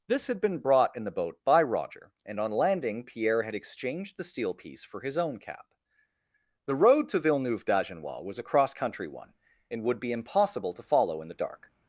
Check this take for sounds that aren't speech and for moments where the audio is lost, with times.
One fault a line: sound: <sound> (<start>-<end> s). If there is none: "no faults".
no faults